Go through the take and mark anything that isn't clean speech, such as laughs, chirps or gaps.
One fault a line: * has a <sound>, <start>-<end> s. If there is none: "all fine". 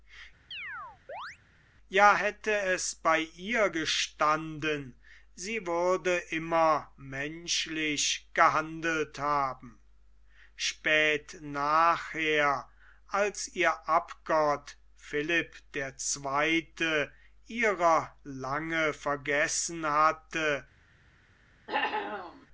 * has a chirp, 0.5-1.4 s
* has a cough, 21.7-22.5 s